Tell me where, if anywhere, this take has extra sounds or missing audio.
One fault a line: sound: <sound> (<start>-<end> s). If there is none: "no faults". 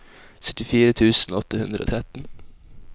no faults